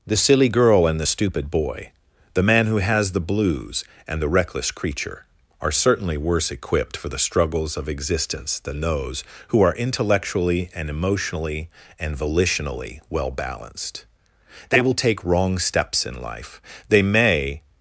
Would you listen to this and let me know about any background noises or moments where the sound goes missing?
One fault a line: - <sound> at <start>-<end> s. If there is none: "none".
none